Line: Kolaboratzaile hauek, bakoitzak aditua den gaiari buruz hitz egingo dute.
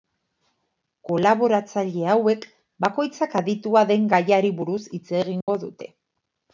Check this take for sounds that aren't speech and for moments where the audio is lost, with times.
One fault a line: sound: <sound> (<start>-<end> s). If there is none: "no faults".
sound: dropout (5.4-5.5 s)